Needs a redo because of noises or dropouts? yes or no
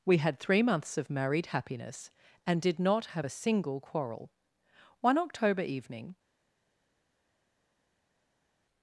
no